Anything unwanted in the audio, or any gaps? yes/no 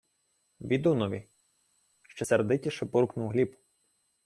no